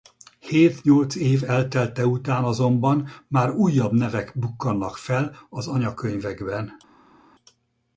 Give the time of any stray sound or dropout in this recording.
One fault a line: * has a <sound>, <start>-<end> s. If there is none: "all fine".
all fine